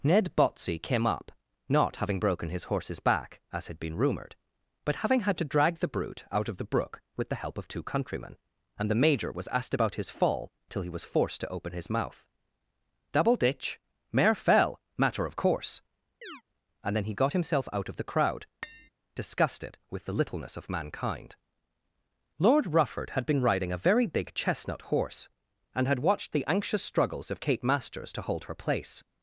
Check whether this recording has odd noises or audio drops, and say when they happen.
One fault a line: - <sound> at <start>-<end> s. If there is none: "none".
- chirp at 16.2-16.4 s
- tap at 18.6-18.9 s